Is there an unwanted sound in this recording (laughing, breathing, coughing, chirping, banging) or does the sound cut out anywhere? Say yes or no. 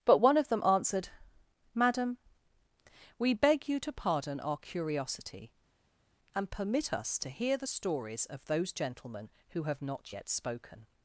no